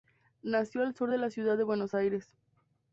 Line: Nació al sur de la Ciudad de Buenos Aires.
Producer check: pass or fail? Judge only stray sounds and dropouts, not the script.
pass